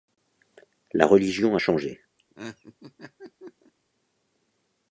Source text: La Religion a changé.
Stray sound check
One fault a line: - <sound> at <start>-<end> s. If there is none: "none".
- laugh at 2.2-3.7 s